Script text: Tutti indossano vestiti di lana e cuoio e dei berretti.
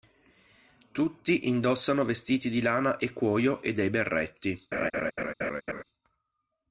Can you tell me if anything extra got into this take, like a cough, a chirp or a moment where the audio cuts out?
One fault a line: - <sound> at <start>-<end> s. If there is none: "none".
- laugh at 4.7-5.8 s